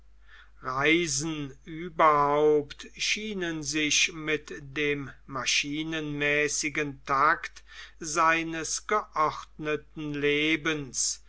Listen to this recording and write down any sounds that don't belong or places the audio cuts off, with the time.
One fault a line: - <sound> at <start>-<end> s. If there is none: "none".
none